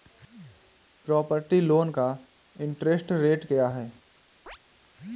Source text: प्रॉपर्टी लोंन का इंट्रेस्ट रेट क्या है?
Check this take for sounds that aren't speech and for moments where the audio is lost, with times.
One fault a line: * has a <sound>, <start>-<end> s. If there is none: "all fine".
* has a chirp, 4.5-4.6 s